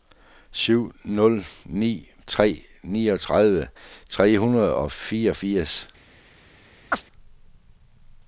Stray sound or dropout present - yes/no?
yes